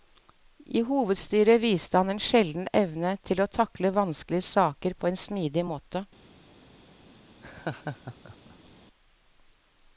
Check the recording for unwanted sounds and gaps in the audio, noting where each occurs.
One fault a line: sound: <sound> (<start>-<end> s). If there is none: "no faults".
sound: laugh (7.4-8.7 s)